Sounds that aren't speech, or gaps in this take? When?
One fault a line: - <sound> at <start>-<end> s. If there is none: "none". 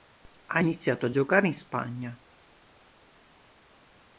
none